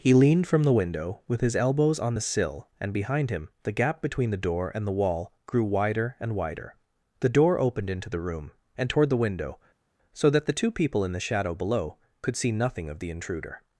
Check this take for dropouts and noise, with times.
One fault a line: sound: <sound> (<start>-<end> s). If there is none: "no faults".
no faults